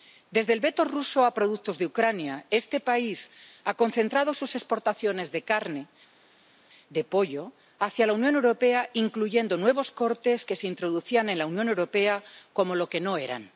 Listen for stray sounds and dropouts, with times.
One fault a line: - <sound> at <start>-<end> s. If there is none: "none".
none